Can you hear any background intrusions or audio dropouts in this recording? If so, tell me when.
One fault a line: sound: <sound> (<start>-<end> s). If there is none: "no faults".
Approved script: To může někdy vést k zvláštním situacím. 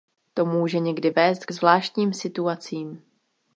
no faults